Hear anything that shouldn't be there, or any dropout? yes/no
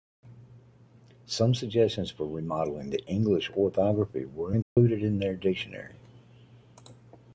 yes